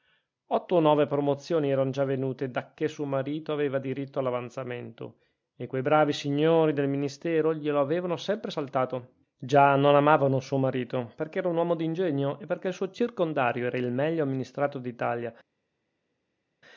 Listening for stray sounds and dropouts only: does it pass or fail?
pass